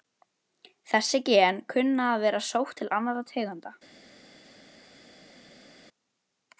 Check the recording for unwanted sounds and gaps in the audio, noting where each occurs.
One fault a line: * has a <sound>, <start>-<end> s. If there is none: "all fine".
all fine